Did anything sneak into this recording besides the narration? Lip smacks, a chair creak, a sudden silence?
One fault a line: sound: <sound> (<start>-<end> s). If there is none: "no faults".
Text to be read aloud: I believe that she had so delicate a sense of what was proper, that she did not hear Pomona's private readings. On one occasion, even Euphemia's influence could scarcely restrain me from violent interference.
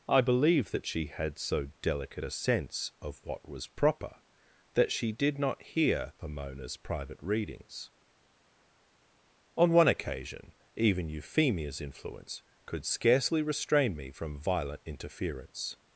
no faults